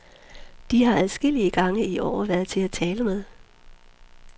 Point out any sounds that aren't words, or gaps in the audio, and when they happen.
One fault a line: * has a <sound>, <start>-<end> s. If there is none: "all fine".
all fine